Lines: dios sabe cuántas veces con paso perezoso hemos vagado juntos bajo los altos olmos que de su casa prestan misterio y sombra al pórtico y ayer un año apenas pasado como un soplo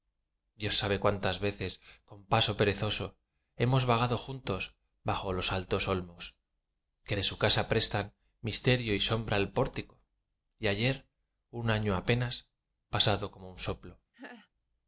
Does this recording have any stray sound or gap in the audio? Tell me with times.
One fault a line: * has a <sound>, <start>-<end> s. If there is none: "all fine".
* has a laugh, 14.1-14.5 s